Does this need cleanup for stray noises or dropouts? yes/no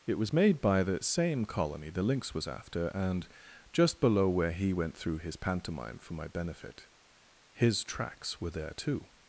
no